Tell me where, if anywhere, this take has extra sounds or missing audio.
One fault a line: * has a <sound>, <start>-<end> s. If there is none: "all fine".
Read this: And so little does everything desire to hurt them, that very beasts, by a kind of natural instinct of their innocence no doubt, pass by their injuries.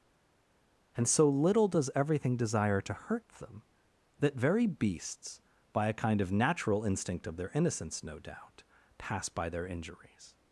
all fine